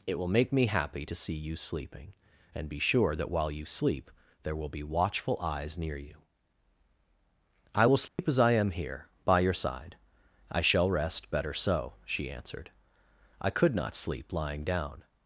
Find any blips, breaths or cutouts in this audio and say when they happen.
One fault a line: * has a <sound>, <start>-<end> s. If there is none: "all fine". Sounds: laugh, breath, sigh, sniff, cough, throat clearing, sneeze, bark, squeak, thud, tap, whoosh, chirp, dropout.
* has a dropout, 8.1-8.2 s